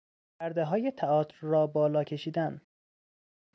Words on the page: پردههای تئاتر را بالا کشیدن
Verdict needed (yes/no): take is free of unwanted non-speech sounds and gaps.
yes